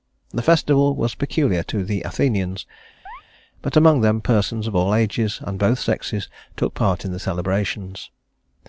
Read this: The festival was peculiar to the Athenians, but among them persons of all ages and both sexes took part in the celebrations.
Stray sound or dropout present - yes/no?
yes